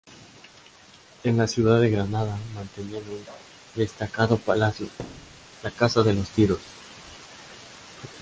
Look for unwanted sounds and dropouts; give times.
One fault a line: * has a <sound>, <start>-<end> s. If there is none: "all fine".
* has a thud, 5.0-5.5 s